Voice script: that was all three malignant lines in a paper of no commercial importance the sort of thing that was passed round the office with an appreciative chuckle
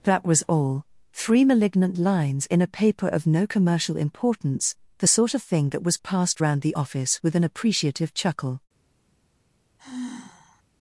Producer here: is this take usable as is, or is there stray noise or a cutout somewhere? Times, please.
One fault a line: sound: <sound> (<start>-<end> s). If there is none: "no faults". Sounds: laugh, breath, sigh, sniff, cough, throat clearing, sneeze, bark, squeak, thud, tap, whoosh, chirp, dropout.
sound: sigh (9.8-10.6 s)